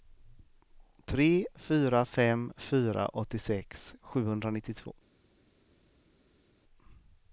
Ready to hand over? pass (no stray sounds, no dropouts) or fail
pass